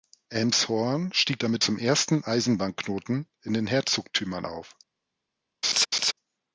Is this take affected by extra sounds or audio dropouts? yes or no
yes